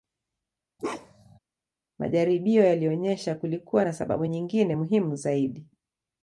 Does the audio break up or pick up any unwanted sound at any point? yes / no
yes